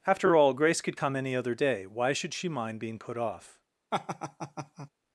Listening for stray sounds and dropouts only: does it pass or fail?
fail